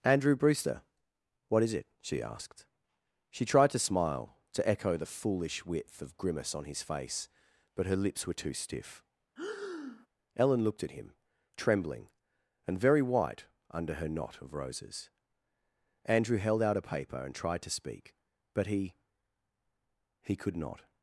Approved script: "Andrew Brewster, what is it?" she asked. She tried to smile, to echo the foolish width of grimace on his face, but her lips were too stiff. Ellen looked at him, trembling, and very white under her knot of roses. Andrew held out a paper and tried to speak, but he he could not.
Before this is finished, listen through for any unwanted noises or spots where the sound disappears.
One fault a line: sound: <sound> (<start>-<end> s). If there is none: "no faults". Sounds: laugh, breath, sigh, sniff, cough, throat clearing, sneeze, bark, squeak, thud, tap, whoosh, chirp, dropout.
sound: breath (9.4-10.1 s)